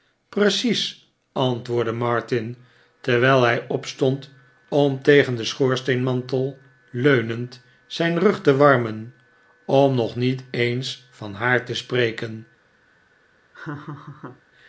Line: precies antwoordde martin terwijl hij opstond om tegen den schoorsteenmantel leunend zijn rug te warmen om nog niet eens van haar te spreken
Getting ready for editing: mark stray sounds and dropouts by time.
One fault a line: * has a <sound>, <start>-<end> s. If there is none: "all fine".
* has a laugh, 13.5-14.4 s